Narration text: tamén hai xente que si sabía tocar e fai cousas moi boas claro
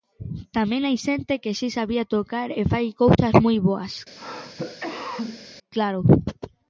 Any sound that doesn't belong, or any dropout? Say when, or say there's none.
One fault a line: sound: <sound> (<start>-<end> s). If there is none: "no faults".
sound: cough (4.2-5.5 s)